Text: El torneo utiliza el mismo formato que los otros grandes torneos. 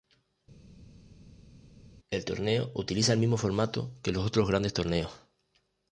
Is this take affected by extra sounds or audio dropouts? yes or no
no